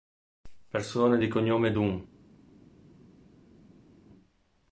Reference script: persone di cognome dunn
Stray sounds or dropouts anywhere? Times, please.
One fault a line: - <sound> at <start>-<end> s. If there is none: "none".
none